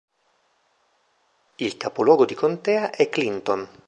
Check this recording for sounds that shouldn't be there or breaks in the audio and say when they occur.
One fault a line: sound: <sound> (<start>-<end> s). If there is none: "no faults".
no faults